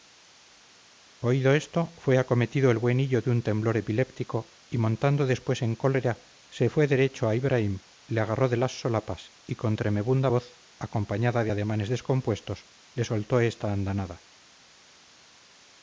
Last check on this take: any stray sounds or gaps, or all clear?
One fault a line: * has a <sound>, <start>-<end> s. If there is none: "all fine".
all fine